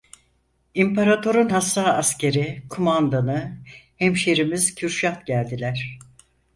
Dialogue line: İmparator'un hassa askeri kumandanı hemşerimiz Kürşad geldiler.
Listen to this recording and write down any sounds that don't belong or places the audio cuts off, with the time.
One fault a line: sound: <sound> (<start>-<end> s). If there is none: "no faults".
no faults